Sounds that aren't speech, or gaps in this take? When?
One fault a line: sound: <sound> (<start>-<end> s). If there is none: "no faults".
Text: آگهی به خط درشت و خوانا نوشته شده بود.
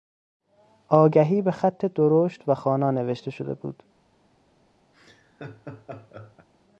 sound: laugh (4.9-6.5 s)